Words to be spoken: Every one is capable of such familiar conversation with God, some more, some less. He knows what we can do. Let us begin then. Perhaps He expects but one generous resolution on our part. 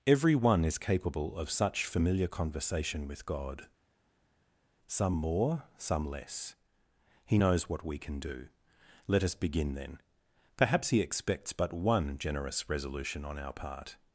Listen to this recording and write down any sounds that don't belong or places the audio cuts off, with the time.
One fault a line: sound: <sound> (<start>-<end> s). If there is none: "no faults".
no faults